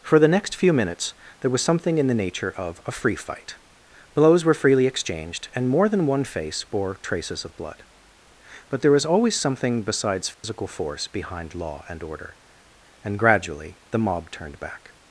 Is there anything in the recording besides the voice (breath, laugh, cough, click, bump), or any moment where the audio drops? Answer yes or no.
yes